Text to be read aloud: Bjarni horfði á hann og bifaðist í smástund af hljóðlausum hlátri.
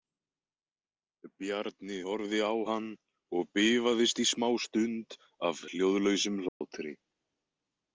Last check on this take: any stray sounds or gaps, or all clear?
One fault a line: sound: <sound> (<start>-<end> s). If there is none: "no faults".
sound: dropout (6.5-6.6 s)